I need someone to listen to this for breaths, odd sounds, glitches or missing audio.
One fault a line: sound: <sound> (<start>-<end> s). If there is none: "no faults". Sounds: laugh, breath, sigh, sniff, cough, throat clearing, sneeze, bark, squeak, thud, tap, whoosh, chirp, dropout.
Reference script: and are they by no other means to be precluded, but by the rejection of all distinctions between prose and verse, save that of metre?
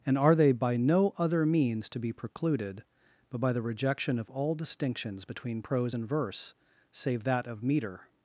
no faults